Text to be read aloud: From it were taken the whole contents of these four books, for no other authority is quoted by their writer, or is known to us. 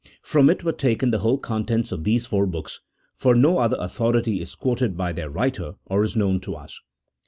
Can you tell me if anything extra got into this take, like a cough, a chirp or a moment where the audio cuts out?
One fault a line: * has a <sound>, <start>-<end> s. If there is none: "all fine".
all fine